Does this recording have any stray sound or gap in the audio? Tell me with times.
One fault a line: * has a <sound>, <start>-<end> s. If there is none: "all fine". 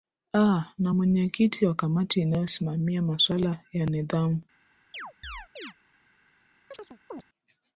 * has a chirp, 4.9-5.7 s
* has a chirp, 6.7-7.2 s